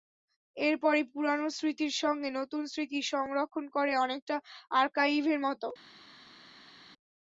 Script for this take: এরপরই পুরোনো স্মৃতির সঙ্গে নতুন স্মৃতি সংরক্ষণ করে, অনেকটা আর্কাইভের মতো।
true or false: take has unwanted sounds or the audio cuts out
false